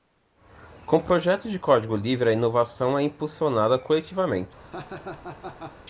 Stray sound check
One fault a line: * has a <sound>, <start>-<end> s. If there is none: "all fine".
* has a laugh, 4.6-5.8 s